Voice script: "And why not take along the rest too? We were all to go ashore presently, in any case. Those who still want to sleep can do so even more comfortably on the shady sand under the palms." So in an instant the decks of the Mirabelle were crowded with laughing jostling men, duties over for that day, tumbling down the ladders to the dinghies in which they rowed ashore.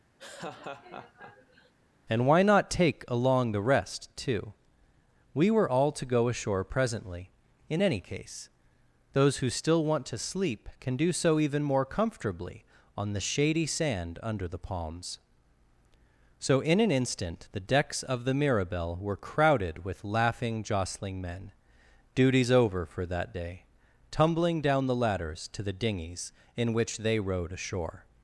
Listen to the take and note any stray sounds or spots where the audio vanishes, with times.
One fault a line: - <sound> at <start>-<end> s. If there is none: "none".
- laugh at 0.2-1.7 s